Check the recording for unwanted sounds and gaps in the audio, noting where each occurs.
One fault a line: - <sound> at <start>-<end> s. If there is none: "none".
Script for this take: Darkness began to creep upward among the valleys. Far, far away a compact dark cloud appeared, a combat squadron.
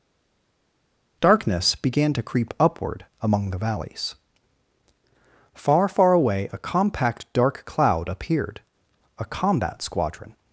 none